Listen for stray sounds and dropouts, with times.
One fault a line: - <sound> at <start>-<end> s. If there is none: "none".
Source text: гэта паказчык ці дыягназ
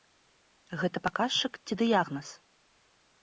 none